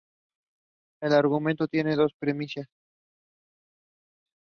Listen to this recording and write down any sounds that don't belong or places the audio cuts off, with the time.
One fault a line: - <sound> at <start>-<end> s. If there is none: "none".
none